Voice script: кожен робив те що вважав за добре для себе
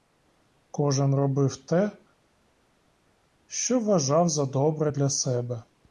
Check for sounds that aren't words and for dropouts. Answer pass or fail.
pass